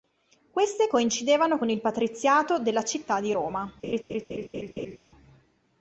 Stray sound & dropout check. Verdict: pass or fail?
fail